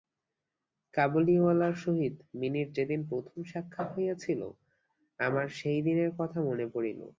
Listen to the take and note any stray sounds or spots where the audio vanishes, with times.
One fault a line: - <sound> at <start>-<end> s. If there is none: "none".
none